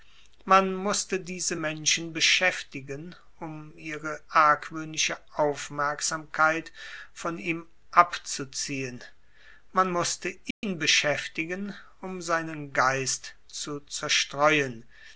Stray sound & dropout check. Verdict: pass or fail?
fail